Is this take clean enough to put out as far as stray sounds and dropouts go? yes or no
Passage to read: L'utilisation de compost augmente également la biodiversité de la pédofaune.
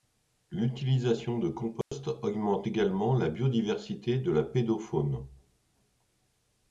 no